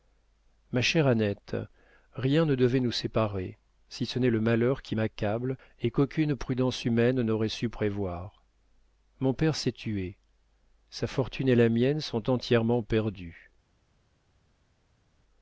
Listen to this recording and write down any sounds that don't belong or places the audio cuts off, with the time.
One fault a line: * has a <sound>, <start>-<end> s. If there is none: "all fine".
all fine